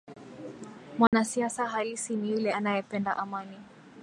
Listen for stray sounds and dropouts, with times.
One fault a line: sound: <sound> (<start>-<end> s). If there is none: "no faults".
sound: dropout (1.1-1.1 s)